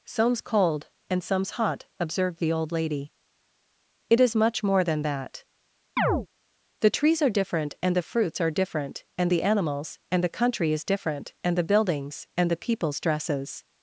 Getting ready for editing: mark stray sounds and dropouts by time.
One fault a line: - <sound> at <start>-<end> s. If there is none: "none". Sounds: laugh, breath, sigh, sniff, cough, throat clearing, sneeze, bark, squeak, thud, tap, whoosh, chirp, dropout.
- chirp at 6.0-6.3 s